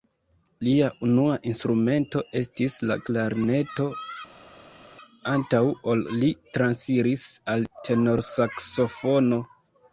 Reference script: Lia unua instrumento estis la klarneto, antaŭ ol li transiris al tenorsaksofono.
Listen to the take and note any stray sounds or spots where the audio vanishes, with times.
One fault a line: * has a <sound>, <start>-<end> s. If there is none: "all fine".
all fine